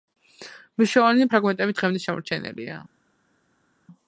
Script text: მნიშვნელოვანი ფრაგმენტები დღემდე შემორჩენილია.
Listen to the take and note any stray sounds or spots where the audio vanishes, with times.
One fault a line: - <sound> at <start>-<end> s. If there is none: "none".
none